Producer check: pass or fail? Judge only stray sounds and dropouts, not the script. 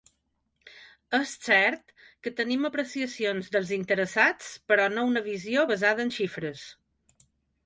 pass